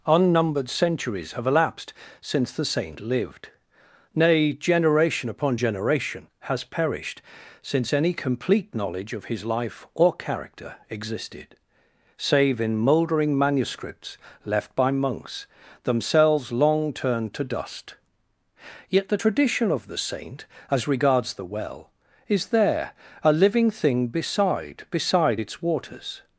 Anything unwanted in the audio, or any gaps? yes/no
no